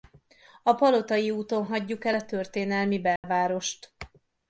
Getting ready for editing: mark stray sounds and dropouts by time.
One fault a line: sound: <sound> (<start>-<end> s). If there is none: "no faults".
sound: dropout (3.2-3.2 s)